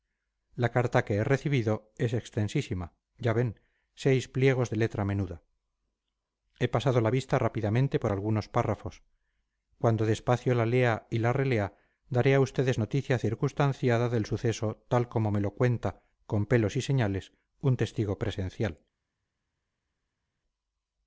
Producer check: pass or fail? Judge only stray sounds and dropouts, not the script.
pass